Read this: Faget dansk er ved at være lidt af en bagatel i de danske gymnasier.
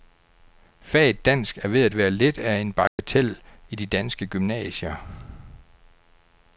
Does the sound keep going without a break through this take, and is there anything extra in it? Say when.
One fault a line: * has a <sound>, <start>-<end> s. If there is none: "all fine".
* has a dropout, 2.9-3.0 s